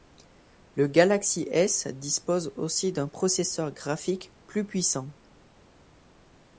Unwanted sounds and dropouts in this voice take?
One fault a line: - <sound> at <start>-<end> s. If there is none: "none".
none